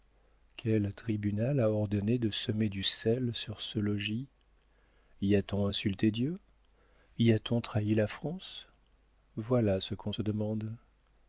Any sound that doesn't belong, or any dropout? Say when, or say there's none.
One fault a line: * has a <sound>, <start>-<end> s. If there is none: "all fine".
all fine